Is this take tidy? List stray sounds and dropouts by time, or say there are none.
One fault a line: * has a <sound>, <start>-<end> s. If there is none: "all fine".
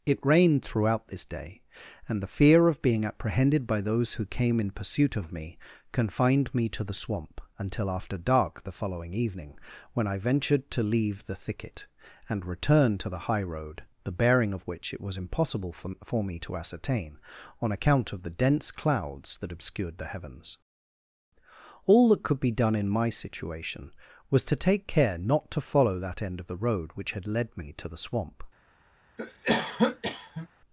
* has a cough, 29.2-30.5 s